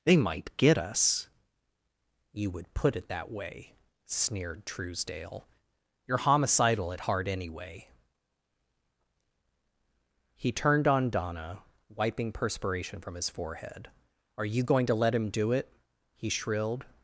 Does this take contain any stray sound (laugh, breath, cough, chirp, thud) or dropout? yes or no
no